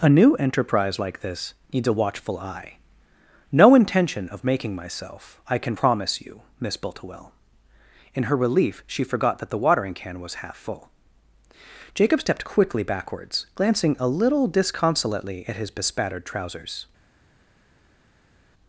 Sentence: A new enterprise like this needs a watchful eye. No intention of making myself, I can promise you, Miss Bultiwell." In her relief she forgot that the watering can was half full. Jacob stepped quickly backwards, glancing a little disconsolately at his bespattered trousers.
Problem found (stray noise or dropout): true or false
false